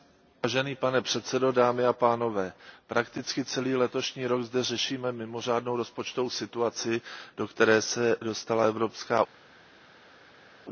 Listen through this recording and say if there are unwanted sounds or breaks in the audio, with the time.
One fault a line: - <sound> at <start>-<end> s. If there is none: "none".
none